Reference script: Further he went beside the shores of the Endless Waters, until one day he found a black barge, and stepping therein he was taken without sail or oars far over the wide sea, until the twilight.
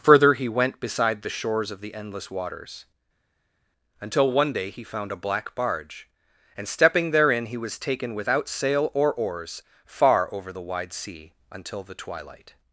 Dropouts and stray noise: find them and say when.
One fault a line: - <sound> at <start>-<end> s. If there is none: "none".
none